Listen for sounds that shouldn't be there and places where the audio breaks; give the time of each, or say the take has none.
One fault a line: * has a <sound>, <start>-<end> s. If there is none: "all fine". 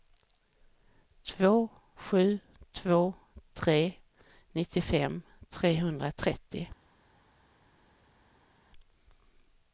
all fine